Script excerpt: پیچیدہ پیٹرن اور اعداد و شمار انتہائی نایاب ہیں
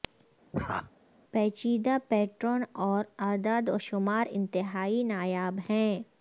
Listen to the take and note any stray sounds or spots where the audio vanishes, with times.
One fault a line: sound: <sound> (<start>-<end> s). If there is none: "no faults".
sound: laugh (0.5-0.9 s)